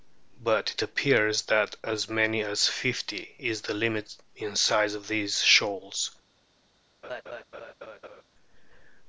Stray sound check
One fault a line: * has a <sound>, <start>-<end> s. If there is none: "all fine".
* has a laugh, 7.0-8.2 s